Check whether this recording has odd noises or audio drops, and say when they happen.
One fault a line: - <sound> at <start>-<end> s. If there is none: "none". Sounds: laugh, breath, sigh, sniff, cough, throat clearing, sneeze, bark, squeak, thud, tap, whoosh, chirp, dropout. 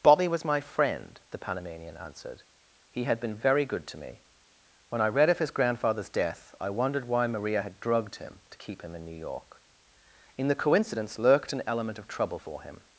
none